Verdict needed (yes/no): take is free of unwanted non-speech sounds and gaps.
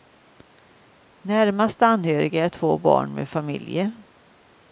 yes